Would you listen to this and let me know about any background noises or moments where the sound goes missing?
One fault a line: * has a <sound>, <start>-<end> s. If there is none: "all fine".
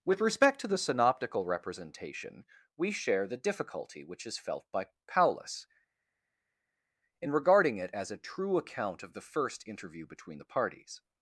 all fine